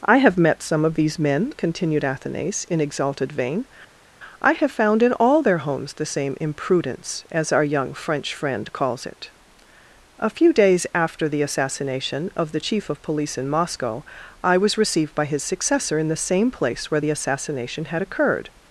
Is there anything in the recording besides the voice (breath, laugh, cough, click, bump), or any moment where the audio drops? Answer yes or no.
no